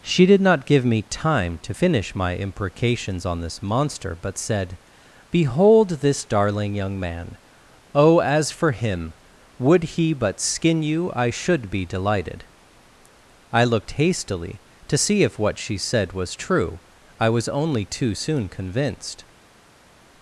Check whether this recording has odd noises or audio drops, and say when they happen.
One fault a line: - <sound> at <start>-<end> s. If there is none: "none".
none